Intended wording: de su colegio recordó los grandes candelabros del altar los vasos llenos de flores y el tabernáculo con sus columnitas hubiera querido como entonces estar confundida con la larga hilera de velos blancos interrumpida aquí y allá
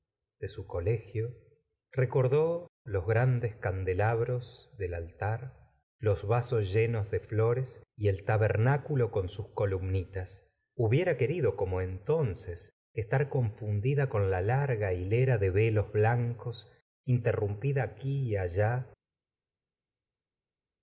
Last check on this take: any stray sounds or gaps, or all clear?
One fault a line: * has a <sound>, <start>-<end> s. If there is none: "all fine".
all fine